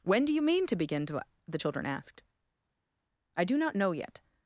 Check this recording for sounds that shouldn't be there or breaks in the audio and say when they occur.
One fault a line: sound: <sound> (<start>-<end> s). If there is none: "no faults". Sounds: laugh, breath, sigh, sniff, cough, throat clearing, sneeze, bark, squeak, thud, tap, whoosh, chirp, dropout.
no faults